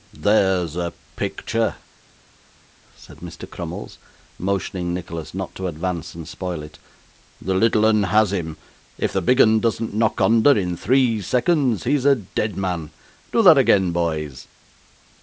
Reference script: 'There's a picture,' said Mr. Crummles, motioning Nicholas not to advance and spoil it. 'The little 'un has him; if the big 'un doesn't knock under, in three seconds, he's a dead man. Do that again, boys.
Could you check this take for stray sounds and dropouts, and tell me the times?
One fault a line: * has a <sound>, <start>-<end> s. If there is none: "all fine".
all fine